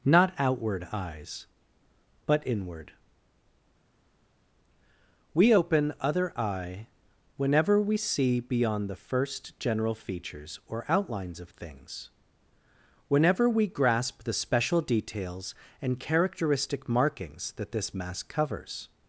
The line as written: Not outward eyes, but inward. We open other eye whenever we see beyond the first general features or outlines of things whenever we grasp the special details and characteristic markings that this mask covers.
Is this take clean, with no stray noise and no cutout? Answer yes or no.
yes